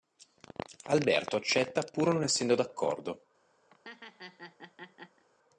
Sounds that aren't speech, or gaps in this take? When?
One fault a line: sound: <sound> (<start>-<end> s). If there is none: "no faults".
sound: laugh (3.7-5.2 s)